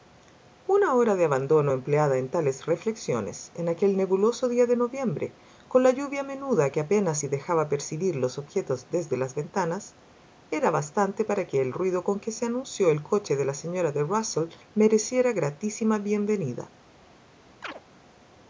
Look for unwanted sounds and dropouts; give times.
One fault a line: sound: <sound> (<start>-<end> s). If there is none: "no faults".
sound: chirp (17.6-17.8 s)